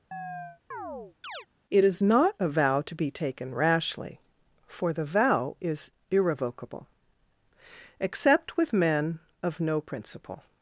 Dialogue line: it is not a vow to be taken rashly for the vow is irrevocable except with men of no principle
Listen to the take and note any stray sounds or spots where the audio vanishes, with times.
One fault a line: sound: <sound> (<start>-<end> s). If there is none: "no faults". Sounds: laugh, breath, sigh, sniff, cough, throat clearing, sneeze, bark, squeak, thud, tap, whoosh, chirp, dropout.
sound: chirp (0.1-1.5 s)